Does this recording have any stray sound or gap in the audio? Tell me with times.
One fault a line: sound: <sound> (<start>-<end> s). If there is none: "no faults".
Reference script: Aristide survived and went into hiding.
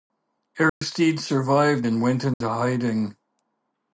sound: dropout (0.7-0.8 s)
sound: dropout (2.3-2.4 s)